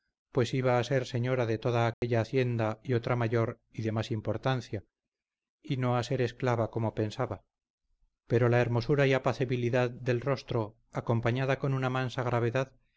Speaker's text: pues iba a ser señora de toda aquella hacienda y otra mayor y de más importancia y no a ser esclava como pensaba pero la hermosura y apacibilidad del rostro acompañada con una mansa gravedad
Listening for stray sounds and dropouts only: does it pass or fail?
fail